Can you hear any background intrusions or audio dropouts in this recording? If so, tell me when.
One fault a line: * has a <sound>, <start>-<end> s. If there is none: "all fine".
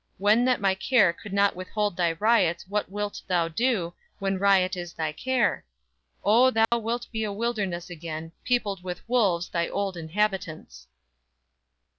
* has a dropout, 6.6-6.7 s